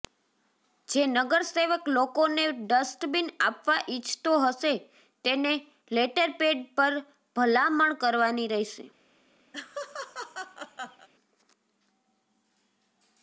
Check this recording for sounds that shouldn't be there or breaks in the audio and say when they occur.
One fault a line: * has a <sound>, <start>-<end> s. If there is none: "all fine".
* has a laugh, 9.5-11.1 s